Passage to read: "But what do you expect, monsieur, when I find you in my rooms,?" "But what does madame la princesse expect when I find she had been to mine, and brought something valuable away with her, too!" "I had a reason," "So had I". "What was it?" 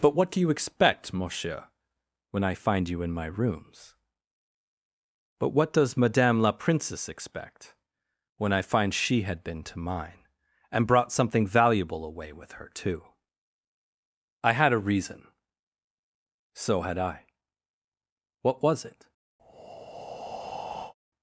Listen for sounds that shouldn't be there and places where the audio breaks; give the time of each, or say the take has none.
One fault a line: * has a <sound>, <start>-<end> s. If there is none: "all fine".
* has a breath, 19.4-20.9 s